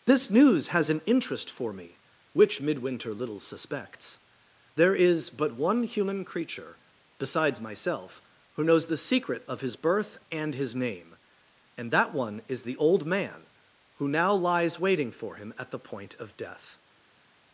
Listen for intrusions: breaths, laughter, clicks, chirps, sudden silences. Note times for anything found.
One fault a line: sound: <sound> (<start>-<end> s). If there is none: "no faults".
no faults